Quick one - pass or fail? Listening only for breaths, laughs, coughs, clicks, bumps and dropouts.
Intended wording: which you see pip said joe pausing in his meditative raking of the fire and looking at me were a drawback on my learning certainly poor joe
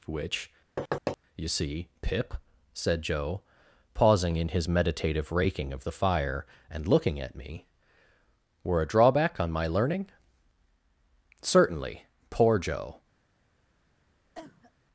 fail